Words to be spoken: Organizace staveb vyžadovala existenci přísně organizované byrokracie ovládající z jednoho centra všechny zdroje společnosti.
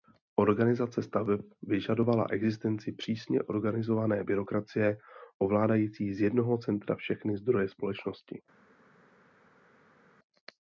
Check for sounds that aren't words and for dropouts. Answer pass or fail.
pass